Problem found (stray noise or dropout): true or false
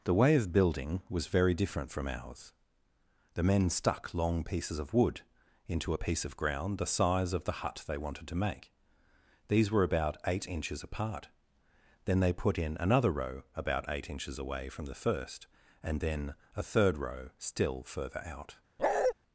true